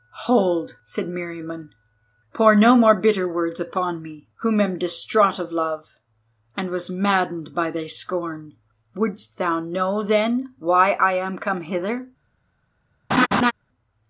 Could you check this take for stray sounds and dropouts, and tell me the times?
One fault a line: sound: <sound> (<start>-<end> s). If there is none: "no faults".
sound: laugh (13.1-13.5 s)